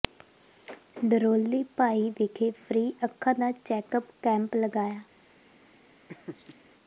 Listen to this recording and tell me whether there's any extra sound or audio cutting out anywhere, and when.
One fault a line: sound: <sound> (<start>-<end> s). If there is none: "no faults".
sound: laugh (6.1-6.6 s)